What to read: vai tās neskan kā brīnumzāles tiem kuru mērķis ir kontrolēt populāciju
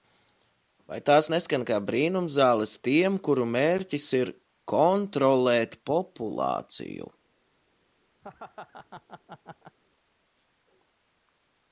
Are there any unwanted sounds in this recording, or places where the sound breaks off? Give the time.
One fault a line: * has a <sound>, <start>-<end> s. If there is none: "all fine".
* has a laugh, 8.2-9.8 s